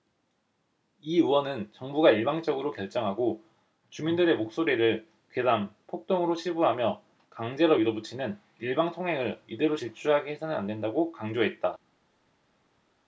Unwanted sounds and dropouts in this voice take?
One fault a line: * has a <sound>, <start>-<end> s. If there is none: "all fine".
all fine